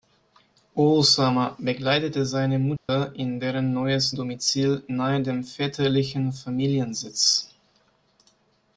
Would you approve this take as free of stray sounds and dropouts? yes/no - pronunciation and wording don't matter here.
no